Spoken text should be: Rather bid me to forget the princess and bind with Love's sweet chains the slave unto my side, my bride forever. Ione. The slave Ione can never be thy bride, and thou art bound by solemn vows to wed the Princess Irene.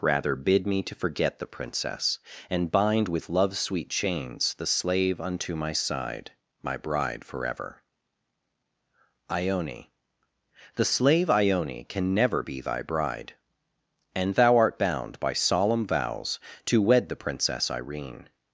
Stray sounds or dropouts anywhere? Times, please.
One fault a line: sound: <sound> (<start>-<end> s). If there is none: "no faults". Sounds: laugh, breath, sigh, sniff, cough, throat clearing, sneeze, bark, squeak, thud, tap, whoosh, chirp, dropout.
no faults